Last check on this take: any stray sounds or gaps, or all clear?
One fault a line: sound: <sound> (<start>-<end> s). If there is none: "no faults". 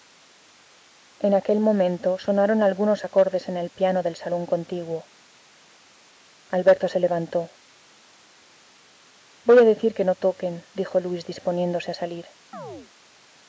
sound: chirp (12.5-12.9 s)